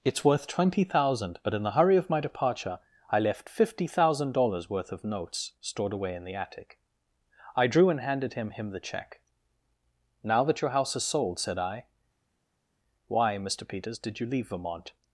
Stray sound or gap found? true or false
false